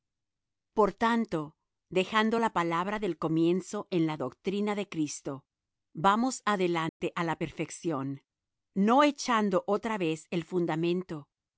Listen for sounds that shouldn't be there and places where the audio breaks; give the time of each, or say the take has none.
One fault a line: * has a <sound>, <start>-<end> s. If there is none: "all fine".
* has a dropout, 6.9-7.0 s